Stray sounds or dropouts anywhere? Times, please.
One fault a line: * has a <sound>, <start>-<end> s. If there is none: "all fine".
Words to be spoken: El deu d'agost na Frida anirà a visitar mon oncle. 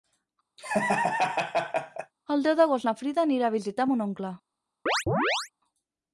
* has a laugh, 0.6-2.1 s
* has a chirp, 4.9-5.5 s